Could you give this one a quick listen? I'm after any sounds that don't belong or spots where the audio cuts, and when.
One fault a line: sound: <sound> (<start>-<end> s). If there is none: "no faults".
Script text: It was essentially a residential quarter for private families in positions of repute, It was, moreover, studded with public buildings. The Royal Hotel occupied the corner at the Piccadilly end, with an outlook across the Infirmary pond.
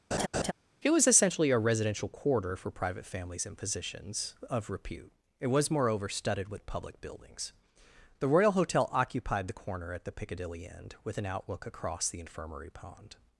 sound: laugh (0.1-0.5 s)